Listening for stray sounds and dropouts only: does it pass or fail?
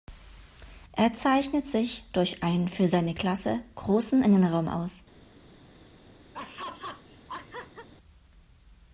fail